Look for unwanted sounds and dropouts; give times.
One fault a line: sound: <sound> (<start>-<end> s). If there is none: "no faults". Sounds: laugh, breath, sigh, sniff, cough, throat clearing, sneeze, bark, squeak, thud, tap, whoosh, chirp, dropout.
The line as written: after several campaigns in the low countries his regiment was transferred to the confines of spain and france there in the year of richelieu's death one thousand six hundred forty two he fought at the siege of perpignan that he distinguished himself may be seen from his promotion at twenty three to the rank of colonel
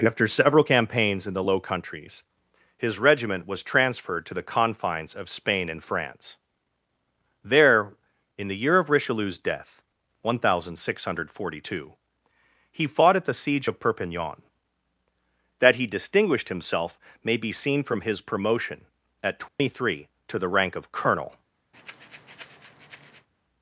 sound: dropout (19.5-19.6 s)
sound: breath (21.7-23.3 s)